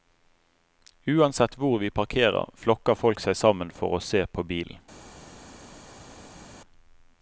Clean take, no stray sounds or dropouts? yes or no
yes